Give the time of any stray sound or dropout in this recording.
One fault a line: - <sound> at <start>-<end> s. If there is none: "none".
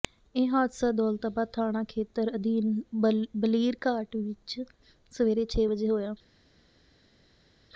none